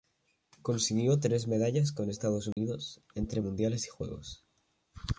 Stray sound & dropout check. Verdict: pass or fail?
fail